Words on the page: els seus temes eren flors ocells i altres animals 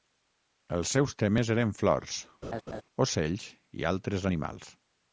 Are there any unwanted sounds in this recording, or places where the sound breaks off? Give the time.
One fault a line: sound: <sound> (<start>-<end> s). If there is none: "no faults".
sound: laugh (2.4-2.8 s)